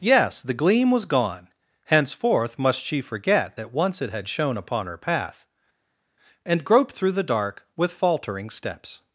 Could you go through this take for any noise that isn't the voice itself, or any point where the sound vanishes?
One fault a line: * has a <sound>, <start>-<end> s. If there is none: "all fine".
all fine